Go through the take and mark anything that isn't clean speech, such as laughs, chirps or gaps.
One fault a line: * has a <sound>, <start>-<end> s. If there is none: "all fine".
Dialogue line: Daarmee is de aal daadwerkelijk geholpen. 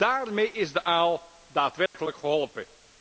* has a dropout, 1.9-1.9 s